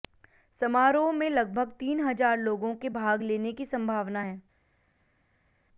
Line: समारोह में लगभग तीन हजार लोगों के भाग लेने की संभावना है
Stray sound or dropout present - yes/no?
no